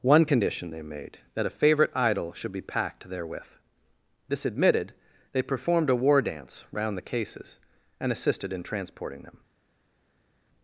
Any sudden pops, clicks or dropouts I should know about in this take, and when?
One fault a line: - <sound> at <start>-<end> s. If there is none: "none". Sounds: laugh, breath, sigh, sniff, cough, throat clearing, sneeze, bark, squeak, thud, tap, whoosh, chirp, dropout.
none